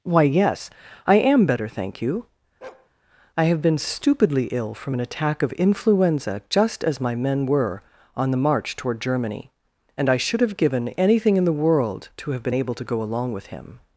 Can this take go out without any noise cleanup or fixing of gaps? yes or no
no